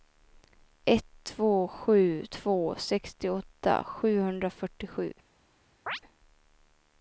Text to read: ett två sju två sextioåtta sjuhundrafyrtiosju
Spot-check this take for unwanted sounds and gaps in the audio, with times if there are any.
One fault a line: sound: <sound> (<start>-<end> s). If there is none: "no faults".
sound: chirp (5.9-6.0 s)